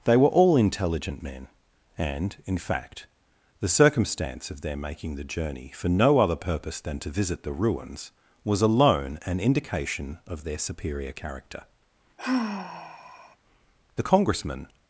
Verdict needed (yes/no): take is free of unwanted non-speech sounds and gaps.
no